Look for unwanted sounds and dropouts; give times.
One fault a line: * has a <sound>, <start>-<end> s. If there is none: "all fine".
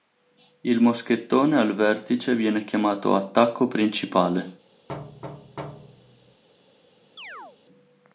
* has a thud, 4.9-6.4 s
* has a chirp, 7.2-7.6 s